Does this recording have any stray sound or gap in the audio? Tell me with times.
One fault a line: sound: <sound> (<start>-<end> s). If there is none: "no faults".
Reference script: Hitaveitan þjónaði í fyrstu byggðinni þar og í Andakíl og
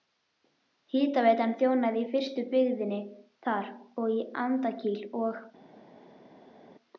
no faults